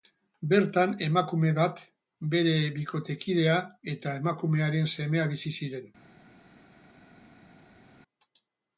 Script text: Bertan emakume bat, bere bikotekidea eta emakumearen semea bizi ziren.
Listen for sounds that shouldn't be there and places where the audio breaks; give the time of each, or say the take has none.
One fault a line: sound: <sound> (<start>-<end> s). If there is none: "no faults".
no faults